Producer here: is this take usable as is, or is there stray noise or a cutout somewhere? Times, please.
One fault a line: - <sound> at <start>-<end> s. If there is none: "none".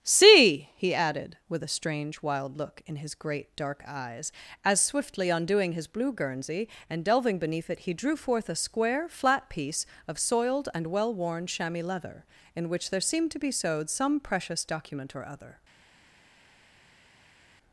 none